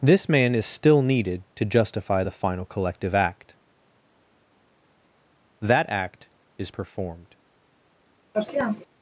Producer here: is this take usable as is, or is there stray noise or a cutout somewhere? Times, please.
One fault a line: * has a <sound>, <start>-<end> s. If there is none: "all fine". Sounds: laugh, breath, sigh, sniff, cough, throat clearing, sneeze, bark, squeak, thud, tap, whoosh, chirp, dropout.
* has a sniff, 8.3-8.9 s